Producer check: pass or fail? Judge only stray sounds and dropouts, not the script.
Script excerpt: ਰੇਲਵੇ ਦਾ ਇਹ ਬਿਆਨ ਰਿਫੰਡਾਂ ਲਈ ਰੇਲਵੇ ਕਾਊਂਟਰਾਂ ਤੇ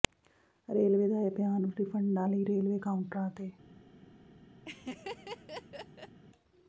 fail